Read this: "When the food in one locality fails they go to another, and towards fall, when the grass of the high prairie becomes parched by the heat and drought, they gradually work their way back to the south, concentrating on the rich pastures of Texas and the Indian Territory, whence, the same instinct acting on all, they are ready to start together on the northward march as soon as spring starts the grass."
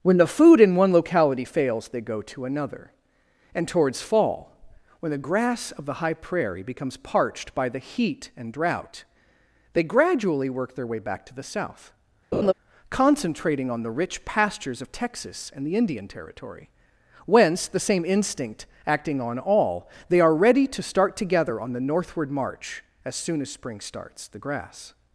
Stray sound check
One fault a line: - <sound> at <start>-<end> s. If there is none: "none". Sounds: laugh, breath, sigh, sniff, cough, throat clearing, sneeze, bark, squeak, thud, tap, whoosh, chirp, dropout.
- laugh at 12.3-12.5 s